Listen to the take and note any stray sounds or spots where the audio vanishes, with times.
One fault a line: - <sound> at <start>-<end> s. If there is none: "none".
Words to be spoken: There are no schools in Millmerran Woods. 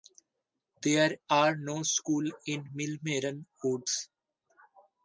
none